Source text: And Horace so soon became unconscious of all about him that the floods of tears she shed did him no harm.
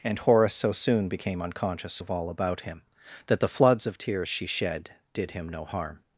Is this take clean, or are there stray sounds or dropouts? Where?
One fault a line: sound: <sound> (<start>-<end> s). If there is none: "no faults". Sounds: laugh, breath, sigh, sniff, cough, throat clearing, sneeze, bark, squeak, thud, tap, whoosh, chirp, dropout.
no faults